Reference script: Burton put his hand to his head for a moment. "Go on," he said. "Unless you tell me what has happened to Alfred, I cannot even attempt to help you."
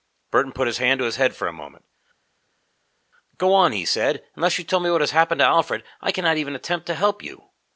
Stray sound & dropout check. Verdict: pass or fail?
pass